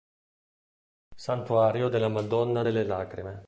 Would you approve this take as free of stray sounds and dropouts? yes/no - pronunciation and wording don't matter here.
yes